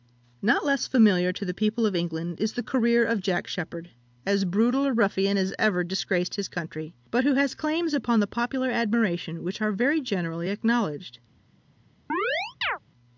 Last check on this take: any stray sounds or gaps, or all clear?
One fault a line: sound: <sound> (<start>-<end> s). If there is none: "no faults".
sound: chirp (12.1-12.8 s)